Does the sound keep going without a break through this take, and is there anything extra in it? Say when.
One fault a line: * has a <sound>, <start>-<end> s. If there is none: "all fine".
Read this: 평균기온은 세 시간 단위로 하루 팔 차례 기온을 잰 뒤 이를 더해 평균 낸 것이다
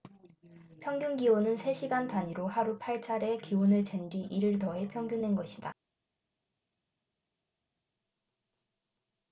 all fine